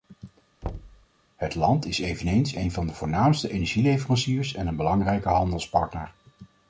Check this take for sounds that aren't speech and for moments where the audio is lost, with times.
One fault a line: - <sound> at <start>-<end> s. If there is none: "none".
- thud at 0.6-1.1 s